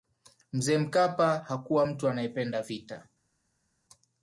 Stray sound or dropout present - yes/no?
no